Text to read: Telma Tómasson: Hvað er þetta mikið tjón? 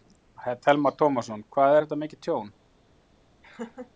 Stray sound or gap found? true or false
true